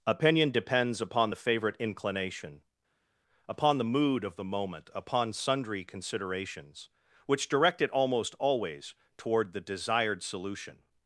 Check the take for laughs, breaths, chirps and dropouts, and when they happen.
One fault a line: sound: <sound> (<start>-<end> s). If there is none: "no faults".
no faults